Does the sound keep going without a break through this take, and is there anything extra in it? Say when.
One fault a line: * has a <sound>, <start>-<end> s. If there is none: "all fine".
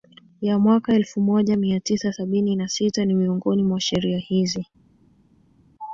all fine